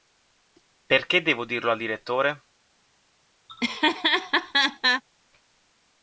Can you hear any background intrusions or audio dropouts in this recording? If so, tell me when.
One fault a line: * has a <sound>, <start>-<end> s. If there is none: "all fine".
* has a laugh, 3.5-5.0 s